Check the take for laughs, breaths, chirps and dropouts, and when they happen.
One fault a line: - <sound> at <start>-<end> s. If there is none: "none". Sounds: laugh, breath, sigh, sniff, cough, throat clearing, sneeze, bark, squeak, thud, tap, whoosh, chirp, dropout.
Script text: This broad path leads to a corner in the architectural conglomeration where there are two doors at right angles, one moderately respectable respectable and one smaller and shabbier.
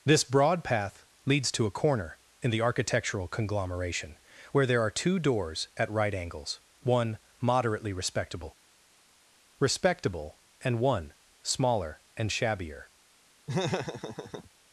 - laugh at 13.5-14.5 s